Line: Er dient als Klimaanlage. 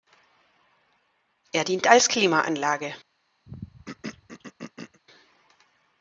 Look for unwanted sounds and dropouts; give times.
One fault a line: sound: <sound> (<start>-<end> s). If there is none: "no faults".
sound: throat clearing (3.5-5.0 s)